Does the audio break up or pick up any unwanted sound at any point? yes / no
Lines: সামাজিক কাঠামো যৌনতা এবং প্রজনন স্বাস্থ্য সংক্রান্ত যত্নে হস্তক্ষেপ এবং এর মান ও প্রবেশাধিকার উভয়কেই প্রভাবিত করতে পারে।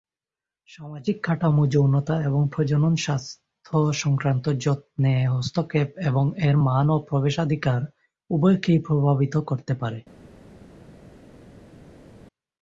no